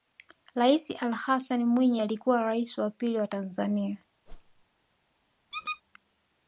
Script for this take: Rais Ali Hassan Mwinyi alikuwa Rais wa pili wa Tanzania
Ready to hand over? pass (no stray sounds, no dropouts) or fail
fail